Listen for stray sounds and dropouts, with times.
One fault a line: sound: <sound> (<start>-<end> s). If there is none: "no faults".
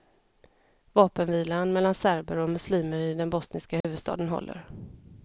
sound: dropout (3.8-3.8 s)